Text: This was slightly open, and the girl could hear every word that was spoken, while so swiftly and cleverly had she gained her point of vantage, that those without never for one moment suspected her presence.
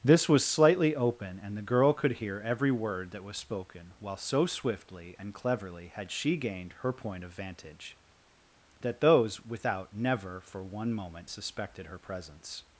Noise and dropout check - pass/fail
pass